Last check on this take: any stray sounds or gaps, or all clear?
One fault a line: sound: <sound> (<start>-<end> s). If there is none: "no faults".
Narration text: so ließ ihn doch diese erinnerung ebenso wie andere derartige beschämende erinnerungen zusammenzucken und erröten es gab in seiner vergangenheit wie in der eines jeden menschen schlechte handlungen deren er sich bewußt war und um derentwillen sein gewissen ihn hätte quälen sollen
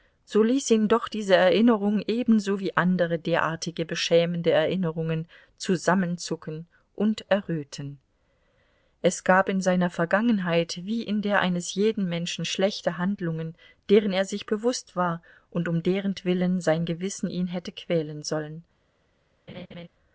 sound: laugh (19.5-19.9 s)